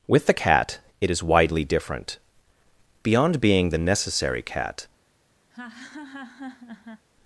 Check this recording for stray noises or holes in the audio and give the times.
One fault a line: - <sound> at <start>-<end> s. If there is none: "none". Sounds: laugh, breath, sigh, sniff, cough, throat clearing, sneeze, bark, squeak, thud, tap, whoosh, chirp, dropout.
- laugh at 5.5-7.0 s